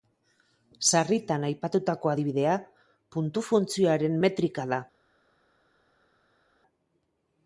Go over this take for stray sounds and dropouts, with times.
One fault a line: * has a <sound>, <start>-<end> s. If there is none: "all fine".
all fine